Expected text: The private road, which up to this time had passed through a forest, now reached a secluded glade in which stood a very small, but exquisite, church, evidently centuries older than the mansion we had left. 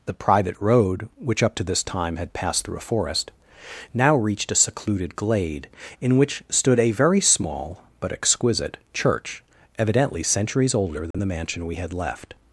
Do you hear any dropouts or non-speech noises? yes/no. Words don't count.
yes